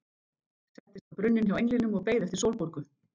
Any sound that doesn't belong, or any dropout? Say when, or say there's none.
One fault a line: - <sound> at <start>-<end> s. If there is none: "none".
none